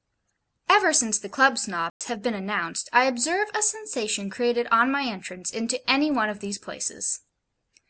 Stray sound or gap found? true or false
true